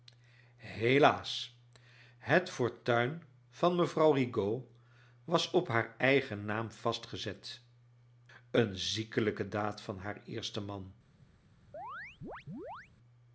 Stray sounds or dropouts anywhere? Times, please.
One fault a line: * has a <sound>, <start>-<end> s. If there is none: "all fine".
* has a chirp, 11.7-12.9 s